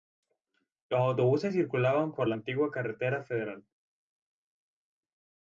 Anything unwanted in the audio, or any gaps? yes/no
no